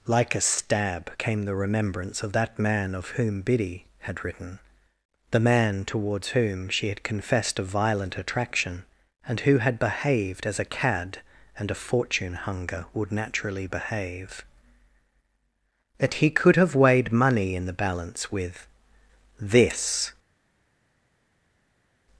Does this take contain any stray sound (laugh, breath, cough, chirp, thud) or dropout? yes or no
no